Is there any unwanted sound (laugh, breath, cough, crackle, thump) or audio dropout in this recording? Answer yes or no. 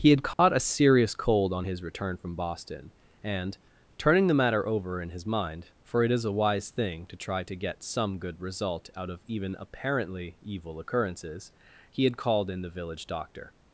yes